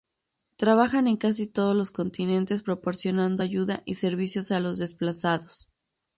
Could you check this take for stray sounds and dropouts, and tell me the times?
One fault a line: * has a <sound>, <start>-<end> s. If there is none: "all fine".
all fine